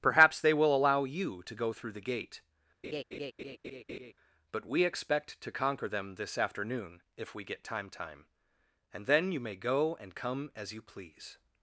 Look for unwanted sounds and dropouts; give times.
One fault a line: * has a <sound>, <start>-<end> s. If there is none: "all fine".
* has a laugh, 2.8-4.1 s